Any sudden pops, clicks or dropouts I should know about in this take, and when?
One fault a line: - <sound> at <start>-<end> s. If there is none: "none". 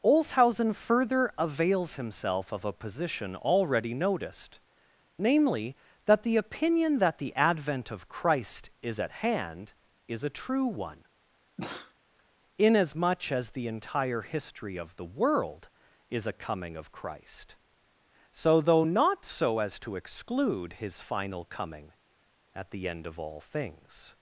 - sneeze at 11.6-11.9 s